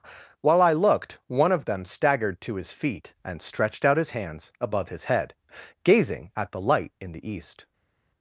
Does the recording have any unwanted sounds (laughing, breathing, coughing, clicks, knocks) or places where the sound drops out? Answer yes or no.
no